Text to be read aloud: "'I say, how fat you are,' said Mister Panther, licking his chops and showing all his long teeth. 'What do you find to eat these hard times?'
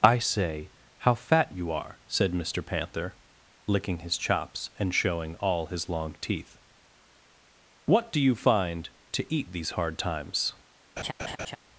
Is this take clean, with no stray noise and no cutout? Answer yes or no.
no